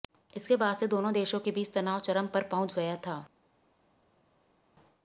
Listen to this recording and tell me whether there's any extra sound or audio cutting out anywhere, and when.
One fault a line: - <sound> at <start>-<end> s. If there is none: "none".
none